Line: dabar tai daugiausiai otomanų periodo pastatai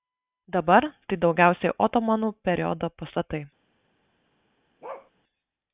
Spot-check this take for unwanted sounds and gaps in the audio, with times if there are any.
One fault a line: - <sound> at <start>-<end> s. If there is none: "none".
- bark at 4.8-5.1 s